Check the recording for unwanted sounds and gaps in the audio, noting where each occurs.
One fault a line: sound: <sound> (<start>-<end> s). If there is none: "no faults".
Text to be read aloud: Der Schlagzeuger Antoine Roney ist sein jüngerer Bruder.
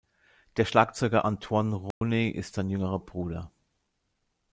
sound: dropout (1.9-2.0 s)